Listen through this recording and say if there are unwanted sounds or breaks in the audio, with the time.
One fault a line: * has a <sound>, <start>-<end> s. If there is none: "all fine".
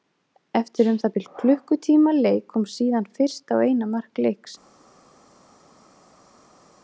all fine